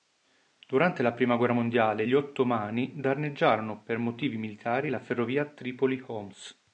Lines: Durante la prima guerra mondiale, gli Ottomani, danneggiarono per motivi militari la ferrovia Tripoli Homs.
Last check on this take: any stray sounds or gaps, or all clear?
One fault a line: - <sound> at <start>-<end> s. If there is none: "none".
none